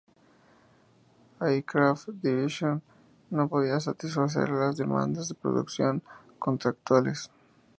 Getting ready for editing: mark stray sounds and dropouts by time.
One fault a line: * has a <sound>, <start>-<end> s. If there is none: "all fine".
all fine